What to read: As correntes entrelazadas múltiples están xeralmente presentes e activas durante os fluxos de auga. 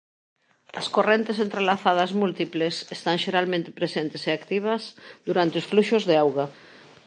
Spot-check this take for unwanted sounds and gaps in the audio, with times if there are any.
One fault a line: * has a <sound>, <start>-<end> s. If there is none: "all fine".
all fine